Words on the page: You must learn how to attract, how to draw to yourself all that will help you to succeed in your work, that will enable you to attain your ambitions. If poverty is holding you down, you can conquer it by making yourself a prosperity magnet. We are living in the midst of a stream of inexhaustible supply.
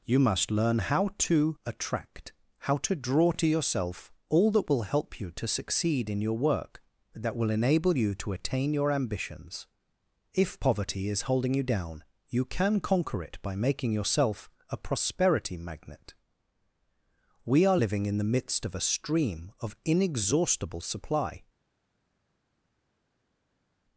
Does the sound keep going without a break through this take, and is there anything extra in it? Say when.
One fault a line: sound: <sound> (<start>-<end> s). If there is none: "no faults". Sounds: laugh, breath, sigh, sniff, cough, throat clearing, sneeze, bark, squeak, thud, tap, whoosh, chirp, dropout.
no faults